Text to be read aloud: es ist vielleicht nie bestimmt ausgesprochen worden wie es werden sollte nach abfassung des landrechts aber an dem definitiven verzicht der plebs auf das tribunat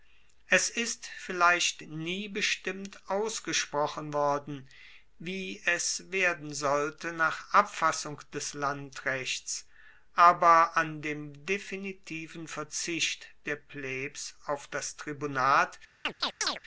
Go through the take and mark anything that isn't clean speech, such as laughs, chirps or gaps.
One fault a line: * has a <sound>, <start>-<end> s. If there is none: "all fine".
* has a chirp, 16.0-16.6 s